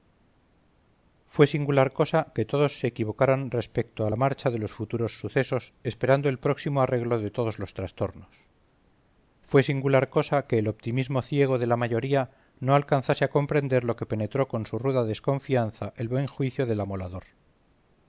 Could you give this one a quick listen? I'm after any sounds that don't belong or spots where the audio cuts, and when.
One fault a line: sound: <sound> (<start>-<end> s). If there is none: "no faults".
no faults